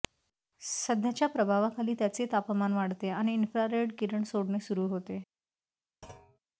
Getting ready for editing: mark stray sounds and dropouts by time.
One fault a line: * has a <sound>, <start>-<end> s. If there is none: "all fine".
* has a thud, 6.0-6.4 s